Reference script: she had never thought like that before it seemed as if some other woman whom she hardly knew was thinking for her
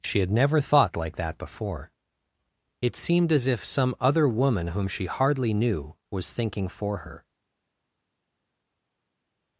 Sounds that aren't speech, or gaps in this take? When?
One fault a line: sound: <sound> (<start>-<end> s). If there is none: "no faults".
no faults